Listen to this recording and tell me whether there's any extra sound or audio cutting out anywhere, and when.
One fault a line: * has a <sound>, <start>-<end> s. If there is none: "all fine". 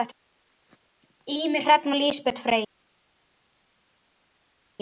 all fine